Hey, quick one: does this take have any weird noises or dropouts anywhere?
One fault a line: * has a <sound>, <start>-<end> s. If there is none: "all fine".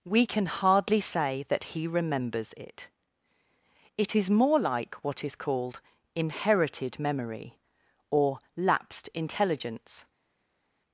all fine